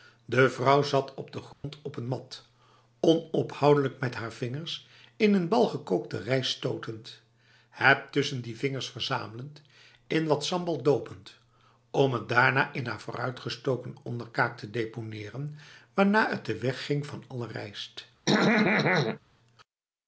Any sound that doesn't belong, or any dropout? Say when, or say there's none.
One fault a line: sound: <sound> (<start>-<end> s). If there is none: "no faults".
sound: dropout (1.5-1.6 s)
sound: throat clearing (18.3-19.2 s)